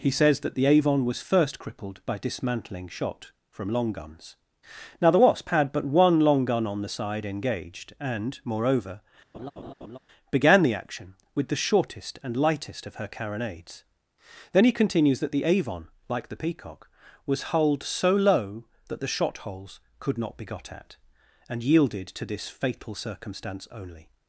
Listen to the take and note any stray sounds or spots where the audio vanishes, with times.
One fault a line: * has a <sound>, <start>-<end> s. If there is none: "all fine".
* has a laugh, 9.3-10.0 s